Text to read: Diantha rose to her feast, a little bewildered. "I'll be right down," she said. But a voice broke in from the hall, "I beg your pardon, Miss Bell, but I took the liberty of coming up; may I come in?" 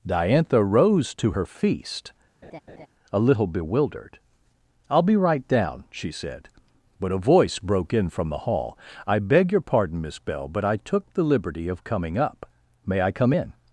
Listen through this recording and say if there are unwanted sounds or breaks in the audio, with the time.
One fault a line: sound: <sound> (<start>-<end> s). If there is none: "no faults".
sound: laugh (2.4-2.9 s)